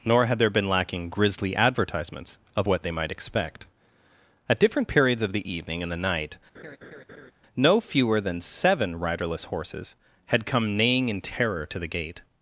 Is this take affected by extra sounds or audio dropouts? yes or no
yes